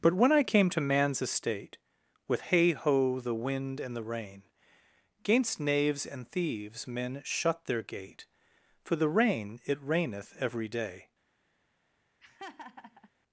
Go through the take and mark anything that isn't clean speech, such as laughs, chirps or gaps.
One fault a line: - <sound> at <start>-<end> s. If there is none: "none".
- laugh at 12.2-13.1 s